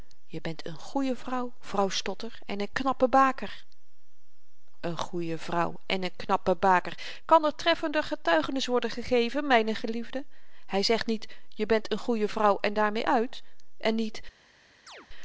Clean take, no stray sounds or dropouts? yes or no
no